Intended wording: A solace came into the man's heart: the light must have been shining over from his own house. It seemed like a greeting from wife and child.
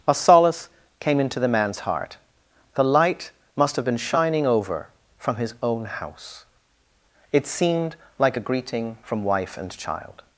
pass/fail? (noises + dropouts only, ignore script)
pass